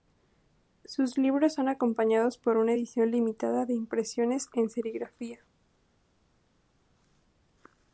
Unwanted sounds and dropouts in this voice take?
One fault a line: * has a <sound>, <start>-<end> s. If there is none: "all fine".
all fine